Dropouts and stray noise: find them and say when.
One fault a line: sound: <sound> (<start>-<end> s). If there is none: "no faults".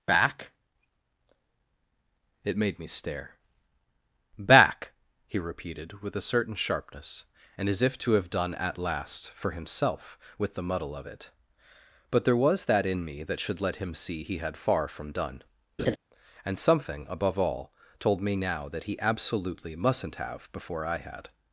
sound: laugh (15.8-16.0 s)